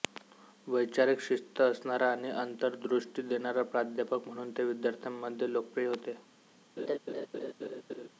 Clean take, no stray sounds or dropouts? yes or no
no